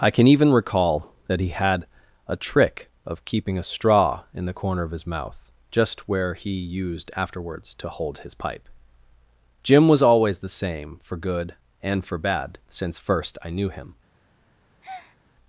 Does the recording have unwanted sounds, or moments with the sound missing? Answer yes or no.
yes